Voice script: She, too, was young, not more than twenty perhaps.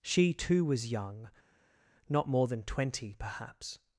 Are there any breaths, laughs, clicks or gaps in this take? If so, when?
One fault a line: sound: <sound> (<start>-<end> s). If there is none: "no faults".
no faults